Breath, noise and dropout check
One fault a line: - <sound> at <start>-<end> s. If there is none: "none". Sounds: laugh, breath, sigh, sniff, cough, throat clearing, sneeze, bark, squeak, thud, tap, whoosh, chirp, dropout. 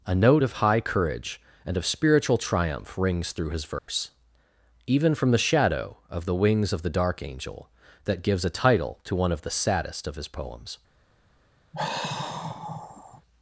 - dropout at 3.8-3.9 s
- sigh at 11.7-13.2 s